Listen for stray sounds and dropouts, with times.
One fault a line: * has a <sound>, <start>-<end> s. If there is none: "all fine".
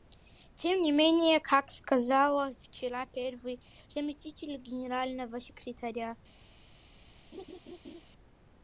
* has a laugh, 7.3-8.0 s